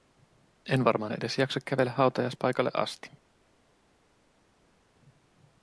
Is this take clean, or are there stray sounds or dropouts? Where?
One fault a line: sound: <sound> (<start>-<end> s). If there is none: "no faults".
no faults